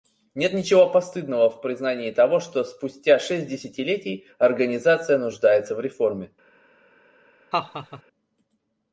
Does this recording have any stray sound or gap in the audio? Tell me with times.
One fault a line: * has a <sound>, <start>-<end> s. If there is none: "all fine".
* has a laugh, 7.5-8.0 s